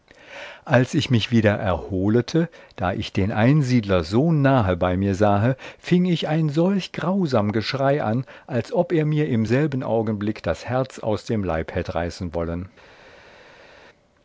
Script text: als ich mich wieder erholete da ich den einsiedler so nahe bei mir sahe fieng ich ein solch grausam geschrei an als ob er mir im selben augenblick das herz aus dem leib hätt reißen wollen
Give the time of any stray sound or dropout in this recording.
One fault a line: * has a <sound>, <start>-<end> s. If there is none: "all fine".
all fine